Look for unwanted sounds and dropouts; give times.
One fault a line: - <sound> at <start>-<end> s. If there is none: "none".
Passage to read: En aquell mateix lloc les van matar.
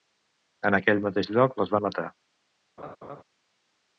- laugh at 2.8-3.2 s